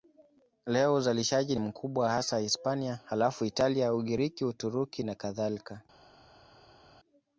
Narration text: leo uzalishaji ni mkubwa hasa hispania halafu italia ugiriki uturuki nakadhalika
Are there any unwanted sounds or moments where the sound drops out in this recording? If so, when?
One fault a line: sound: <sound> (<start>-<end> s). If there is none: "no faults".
no faults